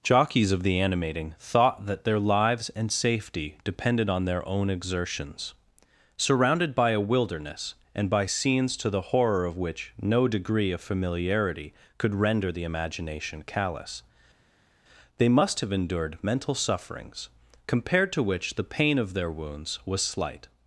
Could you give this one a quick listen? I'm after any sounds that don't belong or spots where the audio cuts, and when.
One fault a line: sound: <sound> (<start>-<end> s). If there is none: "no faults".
no faults